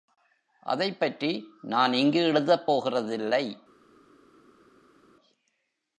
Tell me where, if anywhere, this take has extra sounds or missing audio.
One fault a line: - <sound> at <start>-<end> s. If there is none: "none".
none